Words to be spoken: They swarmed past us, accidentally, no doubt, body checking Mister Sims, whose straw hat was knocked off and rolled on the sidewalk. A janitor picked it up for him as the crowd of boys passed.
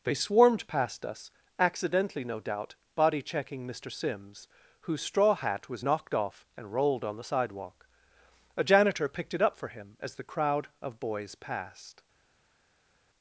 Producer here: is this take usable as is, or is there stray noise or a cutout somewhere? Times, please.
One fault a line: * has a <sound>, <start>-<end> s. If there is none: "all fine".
all fine